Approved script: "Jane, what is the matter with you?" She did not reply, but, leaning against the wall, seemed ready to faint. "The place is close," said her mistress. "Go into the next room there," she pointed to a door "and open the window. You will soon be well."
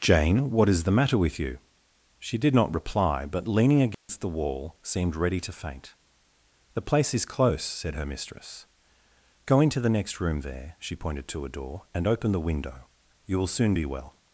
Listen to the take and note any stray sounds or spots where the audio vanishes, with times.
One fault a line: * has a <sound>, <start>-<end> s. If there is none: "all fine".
* has a dropout, 3.9-4.1 s